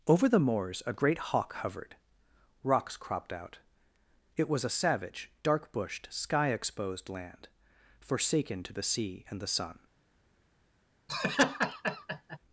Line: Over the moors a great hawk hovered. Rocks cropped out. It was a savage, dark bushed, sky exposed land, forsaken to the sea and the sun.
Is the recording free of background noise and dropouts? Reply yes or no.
no